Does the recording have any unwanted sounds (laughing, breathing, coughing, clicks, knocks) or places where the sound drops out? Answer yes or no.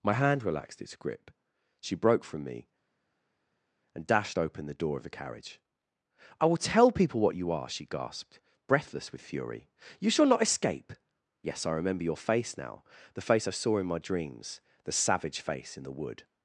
no